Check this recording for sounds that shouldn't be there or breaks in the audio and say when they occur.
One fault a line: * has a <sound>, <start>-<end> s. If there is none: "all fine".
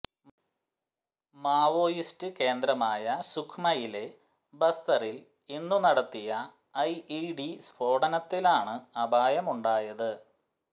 all fine